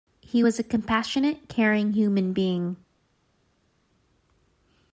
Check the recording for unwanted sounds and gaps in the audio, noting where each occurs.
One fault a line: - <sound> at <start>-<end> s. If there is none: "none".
none